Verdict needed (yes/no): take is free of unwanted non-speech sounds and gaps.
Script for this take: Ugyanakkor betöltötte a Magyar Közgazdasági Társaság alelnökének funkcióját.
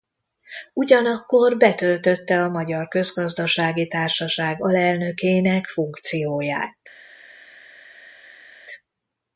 yes